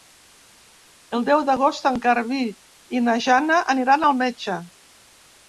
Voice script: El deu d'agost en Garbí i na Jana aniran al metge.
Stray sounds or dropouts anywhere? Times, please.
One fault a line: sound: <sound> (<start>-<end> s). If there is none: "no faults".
no faults